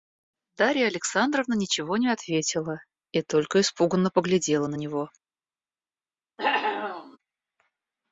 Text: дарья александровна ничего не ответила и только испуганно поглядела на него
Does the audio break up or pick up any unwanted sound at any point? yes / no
yes